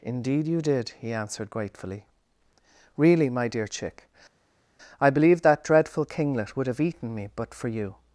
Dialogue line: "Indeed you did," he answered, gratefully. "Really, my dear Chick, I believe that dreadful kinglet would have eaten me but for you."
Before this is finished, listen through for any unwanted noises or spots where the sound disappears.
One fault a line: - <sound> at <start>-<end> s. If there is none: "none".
none